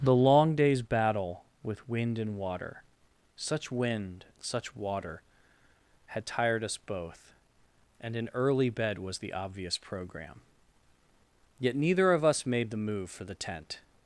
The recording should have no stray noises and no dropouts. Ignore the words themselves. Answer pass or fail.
pass